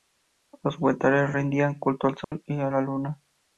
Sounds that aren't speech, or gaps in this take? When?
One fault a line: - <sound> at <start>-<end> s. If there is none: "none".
- dropout at 2.2-2.3 s